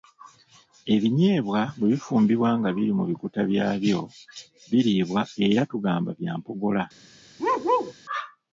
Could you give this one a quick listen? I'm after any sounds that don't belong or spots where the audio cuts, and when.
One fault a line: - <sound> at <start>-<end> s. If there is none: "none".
- bark at 7.4-7.9 s